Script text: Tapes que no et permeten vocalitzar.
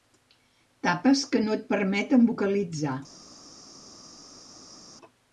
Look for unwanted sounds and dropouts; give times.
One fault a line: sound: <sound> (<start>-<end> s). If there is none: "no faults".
no faults